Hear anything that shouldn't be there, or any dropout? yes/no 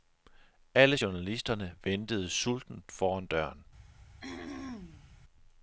yes